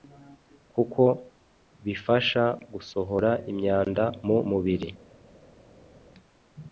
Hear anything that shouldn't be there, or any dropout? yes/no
no